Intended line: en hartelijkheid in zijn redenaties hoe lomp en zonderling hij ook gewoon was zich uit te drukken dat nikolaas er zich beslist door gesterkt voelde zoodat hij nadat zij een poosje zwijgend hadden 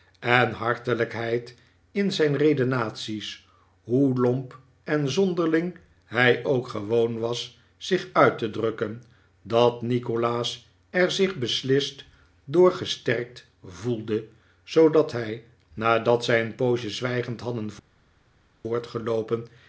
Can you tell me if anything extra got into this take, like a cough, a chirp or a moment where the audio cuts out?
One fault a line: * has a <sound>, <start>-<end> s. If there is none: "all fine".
all fine